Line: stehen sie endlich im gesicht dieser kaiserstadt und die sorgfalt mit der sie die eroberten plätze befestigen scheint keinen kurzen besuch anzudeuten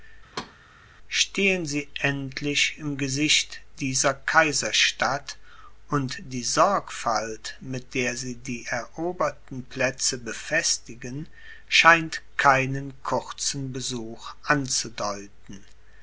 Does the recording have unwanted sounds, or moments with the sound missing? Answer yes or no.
yes